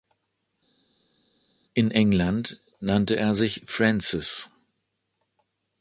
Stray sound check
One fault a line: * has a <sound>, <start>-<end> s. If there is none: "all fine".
all fine